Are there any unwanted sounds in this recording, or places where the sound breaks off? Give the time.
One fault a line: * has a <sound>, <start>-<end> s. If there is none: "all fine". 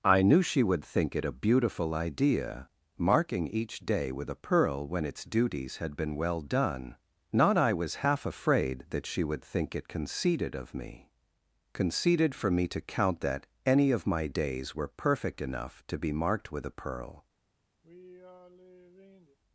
* has a sigh, 17.8-19.4 s